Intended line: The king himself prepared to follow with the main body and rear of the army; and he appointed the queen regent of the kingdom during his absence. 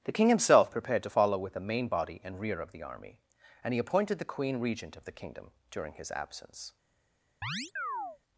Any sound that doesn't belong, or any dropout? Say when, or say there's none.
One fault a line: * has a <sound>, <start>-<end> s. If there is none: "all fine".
* has a chirp, 7.4-8.2 s